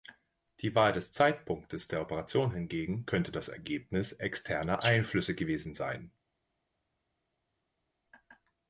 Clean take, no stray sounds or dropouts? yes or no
yes